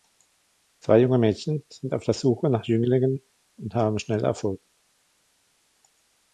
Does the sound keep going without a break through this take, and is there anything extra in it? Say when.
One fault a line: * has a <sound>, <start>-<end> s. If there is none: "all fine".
all fine